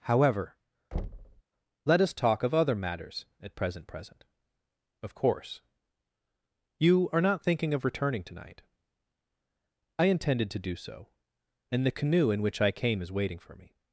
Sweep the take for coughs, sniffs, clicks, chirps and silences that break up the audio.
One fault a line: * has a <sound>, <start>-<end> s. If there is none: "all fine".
* has a thud, 0.9-1.4 s